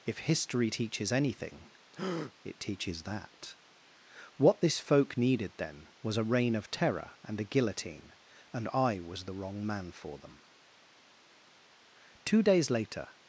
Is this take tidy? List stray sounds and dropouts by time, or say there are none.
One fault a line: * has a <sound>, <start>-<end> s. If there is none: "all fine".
* has a breath, 1.9-2.3 s